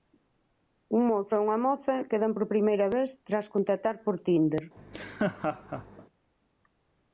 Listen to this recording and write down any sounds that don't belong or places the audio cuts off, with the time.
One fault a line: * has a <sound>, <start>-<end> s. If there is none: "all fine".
* has a laugh, 4.8-6.1 s